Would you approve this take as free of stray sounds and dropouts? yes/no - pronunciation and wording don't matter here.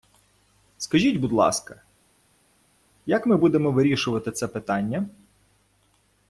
yes